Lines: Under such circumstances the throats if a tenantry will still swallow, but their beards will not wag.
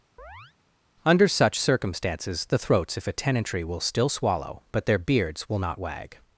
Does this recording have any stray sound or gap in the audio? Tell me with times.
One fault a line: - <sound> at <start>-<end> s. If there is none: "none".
- chirp at 0.2-0.5 s